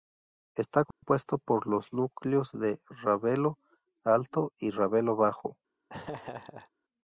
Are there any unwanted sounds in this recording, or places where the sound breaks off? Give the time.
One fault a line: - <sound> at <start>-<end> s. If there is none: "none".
- dropout at 0.9-1.0 s
- laugh at 5.9-6.7 s